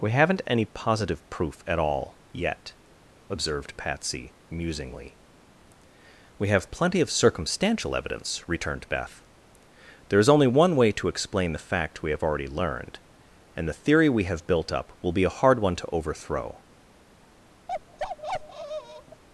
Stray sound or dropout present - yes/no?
yes